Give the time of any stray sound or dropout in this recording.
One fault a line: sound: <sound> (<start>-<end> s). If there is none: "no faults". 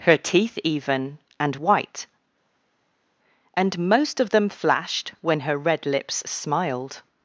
no faults